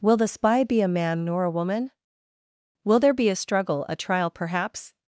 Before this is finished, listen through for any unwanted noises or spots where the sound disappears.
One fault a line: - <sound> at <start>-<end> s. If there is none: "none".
none